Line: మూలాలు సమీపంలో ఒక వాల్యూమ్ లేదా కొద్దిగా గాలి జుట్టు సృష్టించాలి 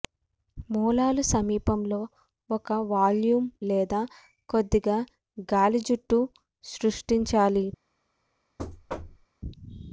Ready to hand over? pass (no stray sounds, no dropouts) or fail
fail